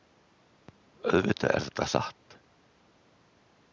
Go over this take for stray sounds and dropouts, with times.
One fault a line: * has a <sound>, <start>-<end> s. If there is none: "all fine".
all fine